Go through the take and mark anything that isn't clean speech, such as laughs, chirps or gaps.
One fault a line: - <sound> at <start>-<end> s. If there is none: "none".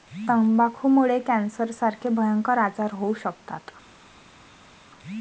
none